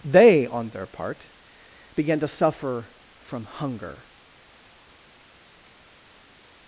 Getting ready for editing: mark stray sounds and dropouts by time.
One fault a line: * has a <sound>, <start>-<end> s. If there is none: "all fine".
all fine